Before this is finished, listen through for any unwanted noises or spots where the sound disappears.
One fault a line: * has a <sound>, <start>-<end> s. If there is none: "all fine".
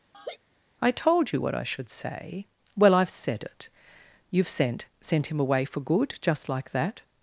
* has a laugh, 0.1-0.4 s